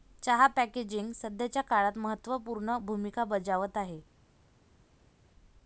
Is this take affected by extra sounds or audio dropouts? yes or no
no